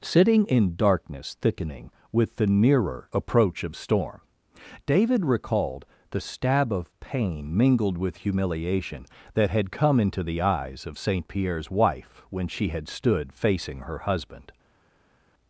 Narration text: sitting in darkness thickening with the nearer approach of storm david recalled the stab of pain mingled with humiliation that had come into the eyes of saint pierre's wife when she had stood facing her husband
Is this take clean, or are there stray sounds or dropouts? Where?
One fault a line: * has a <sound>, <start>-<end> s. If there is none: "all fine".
all fine